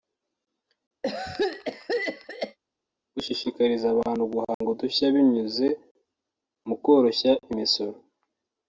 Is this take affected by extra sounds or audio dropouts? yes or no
yes